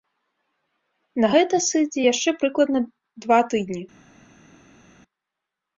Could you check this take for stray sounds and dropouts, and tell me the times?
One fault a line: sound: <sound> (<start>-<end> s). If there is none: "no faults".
no faults